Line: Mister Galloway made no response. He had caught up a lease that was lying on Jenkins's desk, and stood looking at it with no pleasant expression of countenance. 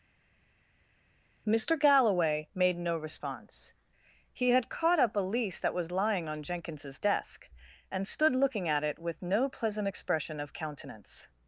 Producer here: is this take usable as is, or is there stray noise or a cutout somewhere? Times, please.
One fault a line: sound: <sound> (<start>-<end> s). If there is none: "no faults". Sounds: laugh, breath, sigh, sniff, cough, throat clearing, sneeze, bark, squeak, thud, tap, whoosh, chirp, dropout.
no faults